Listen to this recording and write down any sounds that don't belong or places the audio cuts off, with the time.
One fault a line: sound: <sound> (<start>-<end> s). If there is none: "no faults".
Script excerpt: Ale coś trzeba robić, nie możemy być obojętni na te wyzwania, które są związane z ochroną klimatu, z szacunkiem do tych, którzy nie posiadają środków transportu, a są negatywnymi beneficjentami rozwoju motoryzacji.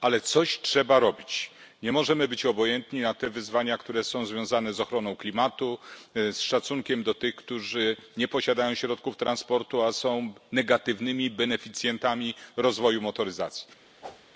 sound: whoosh (14.0-14.3 s)